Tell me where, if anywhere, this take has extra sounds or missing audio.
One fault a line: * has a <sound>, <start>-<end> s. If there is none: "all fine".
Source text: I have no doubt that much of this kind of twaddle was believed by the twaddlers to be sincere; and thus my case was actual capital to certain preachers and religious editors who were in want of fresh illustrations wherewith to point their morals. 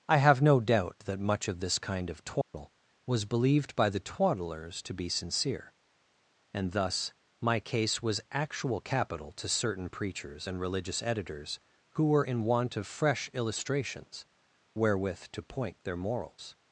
* has a dropout, 2.4-2.5 s